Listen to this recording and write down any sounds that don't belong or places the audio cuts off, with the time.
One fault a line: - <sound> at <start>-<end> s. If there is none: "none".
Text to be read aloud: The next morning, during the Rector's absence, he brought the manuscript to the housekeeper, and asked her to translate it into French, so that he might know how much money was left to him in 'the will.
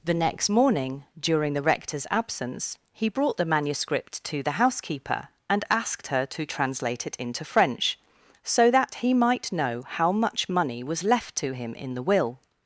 none